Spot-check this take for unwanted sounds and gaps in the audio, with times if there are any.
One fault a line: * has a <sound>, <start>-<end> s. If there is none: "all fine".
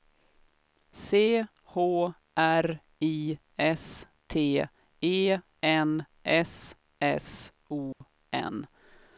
* has a dropout, 7.9-8.0 s